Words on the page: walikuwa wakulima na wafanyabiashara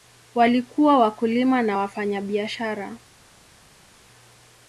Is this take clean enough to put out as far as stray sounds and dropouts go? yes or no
yes